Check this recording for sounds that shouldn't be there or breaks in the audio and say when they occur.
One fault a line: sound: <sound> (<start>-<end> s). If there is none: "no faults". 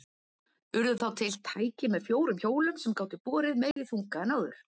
sound: dropout (3.7-3.8 s)